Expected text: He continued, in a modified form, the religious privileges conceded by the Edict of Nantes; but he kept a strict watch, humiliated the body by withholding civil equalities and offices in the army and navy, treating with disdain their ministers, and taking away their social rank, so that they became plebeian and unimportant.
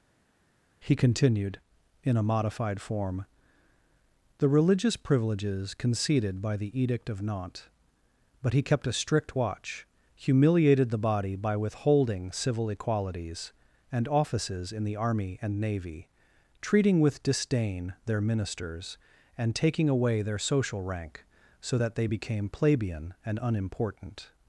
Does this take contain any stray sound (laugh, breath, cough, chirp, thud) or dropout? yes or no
no